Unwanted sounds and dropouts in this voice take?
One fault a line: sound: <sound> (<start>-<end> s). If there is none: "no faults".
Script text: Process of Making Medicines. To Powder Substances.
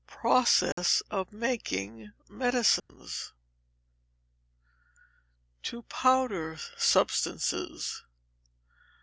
sound: dropout (0.7-0.8 s)
sound: dropout (2.8-2.9 s)